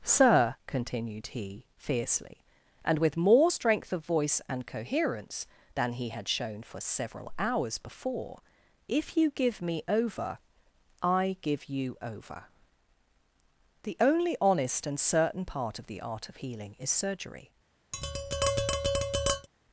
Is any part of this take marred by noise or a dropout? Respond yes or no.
yes